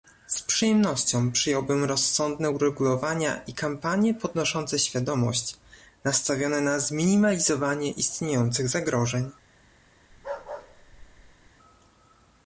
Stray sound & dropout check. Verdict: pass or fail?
fail